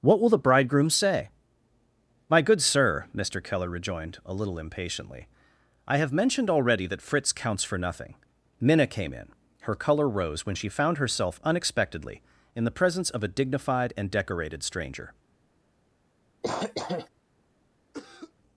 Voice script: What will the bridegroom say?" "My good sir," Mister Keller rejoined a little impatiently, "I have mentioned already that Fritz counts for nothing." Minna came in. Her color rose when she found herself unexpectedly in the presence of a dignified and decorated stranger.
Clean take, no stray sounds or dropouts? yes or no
no